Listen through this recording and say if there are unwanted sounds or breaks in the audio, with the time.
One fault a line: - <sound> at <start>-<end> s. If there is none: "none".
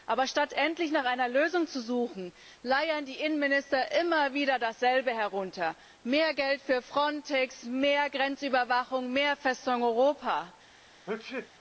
- sneeze at 11.1-11.5 s